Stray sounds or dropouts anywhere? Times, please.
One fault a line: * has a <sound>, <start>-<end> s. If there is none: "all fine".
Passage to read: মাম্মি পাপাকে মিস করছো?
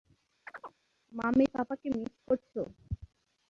* has a chirp, 0.5-0.8 s